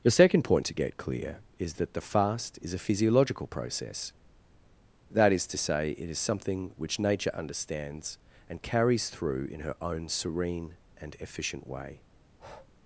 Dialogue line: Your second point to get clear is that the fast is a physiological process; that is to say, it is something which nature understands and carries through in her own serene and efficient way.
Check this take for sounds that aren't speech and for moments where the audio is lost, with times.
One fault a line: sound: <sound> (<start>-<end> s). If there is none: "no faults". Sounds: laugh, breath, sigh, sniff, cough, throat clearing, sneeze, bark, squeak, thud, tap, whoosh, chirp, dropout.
sound: breath (12.2-12.7 s)